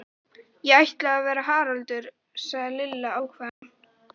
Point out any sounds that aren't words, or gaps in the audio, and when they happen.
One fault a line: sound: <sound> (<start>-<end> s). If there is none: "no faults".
sound: dropout (3.5-3.6 s)